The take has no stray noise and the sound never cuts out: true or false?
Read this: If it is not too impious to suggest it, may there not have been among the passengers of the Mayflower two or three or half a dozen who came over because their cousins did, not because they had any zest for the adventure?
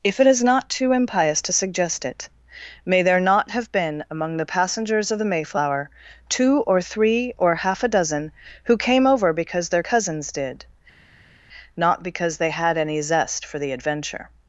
true